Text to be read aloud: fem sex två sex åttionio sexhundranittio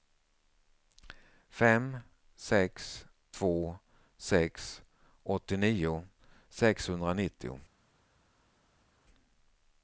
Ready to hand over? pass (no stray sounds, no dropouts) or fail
pass